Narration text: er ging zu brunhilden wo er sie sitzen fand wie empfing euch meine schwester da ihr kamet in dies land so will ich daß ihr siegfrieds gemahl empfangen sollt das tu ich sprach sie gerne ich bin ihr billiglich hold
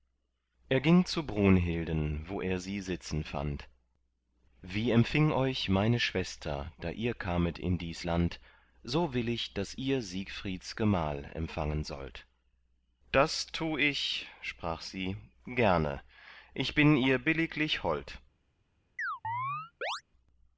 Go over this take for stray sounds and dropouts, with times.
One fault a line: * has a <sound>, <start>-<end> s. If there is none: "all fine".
* has a chirp, 19.0-20.0 s